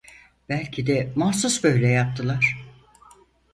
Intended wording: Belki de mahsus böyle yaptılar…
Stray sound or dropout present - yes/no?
no